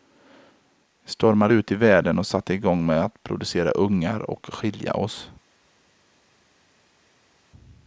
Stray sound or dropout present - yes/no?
no